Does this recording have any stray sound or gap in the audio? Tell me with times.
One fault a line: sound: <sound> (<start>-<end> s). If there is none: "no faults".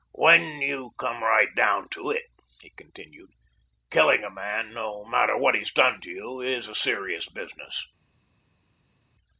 no faults